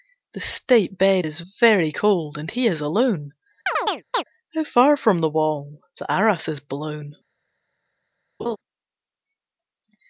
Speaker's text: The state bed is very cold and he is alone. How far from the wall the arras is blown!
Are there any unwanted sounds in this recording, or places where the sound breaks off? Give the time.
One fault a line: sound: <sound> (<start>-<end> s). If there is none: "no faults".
sound: chirp (3.7-4.2 s)
sound: laugh (8.4-8.6 s)